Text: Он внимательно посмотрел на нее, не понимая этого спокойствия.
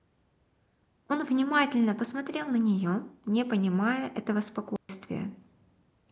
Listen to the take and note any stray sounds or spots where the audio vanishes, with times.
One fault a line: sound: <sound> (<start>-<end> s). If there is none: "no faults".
sound: dropout (4.8-4.9 s)